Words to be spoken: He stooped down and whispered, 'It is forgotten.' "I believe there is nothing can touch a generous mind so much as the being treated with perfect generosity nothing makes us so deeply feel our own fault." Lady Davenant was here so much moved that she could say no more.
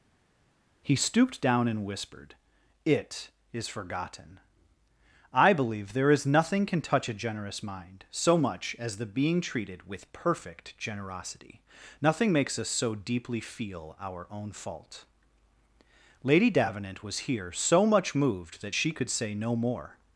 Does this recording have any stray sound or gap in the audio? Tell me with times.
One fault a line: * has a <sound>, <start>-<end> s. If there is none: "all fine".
all fine